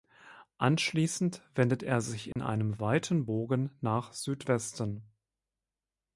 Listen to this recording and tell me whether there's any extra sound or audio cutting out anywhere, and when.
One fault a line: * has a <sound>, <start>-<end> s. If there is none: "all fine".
* has a dropout, 2.3-2.4 s